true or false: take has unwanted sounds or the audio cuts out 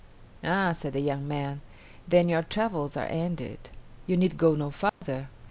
true